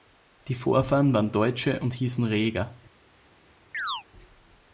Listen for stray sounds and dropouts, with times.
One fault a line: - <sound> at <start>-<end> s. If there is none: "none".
- chirp at 3.7-4.0 s